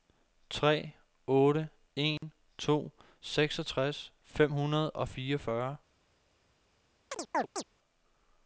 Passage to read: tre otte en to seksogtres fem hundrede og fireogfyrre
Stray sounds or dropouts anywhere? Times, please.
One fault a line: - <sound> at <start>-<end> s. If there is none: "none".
- dropout at 2.2-2.2 s
- chirp at 7.1-7.6 s